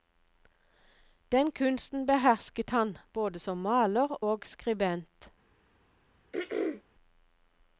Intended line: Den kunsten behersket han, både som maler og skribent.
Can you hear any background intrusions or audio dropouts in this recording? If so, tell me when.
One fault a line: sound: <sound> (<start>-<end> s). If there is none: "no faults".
sound: throat clearing (6.3-6.8 s)